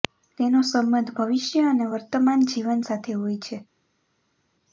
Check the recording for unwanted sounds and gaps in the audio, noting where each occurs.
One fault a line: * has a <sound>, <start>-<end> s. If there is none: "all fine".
all fine